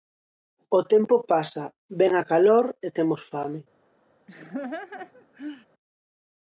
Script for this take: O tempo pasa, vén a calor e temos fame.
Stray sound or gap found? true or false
true